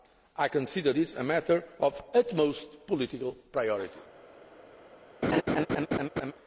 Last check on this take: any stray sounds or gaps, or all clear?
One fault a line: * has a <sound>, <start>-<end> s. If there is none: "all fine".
* has a laugh, 5.2-6.3 s